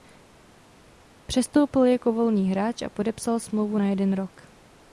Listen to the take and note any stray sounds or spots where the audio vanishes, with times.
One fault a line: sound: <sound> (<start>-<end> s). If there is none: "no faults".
no faults